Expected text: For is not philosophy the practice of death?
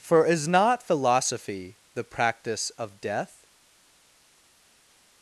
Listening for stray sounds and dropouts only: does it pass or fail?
pass